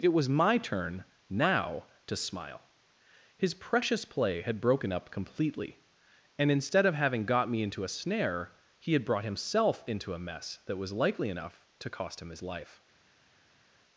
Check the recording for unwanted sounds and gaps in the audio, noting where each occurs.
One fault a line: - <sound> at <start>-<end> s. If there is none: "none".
none